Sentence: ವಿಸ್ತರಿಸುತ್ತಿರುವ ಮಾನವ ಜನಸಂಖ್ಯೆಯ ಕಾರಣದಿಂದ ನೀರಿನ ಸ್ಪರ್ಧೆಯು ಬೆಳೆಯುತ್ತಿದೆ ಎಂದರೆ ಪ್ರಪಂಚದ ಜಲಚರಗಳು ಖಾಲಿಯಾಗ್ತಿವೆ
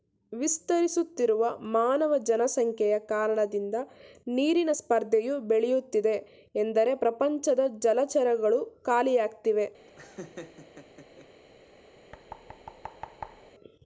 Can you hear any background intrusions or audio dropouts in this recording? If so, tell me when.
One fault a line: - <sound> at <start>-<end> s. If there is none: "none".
- laugh at 9.9-11.3 s
- thud at 12.1-13.5 s